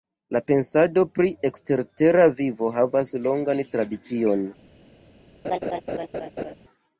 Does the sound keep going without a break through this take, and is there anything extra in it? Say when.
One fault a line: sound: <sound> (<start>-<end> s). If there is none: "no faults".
sound: laugh (5.4-6.5 s)